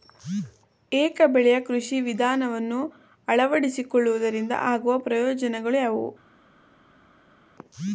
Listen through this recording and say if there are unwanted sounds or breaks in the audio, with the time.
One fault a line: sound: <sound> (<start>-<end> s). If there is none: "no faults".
no faults